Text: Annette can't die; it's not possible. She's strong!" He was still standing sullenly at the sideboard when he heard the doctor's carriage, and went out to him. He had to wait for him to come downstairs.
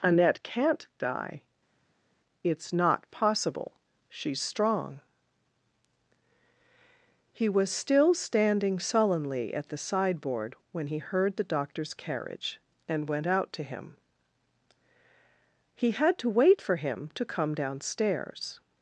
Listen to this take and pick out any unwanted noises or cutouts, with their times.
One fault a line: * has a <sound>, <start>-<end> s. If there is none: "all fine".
all fine